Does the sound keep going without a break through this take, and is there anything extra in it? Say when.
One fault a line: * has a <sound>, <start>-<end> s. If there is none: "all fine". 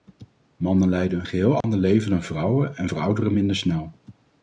* has a dropout, 1.6-1.6 s